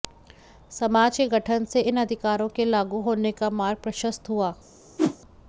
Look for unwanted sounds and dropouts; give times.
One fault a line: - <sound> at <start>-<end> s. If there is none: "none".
- whoosh at 5.0-5.2 s